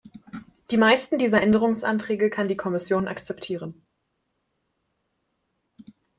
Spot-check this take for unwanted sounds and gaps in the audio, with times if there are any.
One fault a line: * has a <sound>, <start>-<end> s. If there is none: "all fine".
all fine